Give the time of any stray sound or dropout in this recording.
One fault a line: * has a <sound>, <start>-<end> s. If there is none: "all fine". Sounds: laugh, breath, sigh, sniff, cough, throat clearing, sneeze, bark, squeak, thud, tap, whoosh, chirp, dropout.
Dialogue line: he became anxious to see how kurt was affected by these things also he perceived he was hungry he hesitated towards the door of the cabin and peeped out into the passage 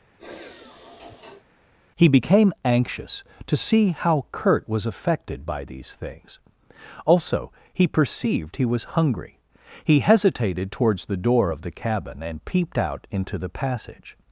* has a sigh, 0.2-1.4 s